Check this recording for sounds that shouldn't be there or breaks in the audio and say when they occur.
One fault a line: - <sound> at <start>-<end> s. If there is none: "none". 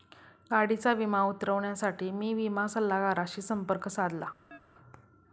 - chirp at 4.5-4.6 s